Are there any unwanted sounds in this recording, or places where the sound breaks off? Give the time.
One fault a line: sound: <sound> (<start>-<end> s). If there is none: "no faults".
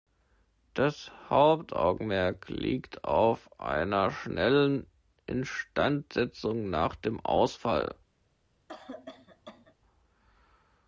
sound: cough (8.7-9.7 s)